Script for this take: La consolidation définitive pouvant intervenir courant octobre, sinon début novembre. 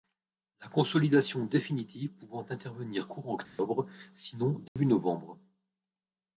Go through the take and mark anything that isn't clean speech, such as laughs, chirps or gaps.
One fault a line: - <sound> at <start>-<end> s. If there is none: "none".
- dropout at 3.4-3.6 s
- dropout at 4.7-4.8 s